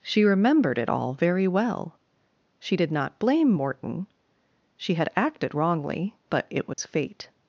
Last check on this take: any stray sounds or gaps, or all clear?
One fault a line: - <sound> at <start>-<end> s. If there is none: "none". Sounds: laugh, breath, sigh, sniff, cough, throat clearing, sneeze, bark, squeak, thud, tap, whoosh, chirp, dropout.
- dropout at 6.7-6.8 s